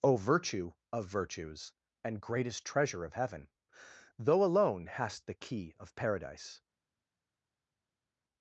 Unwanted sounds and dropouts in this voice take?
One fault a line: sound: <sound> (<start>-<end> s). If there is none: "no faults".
no faults